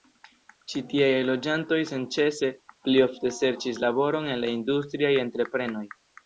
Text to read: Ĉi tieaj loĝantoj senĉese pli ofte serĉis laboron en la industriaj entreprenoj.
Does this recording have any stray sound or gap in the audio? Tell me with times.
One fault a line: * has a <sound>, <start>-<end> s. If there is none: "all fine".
all fine